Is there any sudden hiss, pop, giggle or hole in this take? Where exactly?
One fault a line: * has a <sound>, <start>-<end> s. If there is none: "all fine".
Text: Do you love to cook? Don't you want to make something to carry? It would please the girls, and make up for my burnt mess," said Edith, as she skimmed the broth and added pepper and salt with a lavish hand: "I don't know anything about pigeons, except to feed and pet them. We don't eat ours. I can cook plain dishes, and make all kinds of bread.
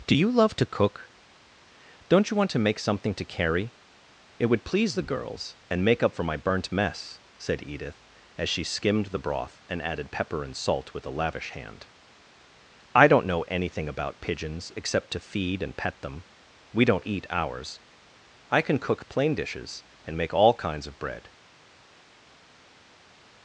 all fine